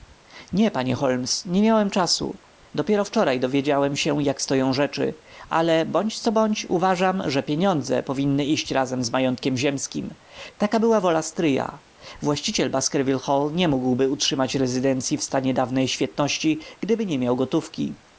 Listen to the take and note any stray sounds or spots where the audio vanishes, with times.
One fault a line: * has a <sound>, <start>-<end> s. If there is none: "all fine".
all fine